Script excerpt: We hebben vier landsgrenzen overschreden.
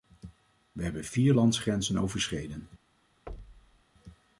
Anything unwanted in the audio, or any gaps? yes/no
yes